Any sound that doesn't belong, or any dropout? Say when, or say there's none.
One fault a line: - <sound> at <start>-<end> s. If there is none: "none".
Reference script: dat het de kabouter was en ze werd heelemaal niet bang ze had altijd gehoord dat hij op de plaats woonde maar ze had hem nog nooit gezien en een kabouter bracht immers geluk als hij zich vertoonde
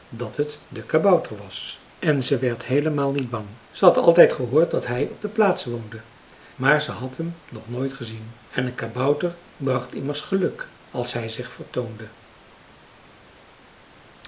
none